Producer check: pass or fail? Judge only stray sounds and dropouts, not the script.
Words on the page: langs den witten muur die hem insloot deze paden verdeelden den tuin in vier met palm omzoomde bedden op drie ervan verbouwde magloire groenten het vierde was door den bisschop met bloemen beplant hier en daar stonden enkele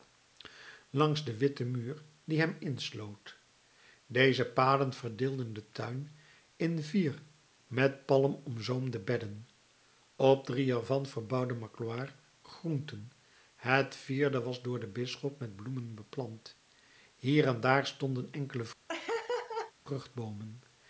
fail